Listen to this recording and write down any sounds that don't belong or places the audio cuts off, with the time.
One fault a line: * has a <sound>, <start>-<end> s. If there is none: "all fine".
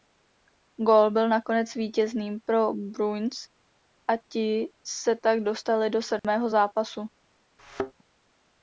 * has a dropout, 6.2-6.2 s
* has a thud, 7.6-7.9 s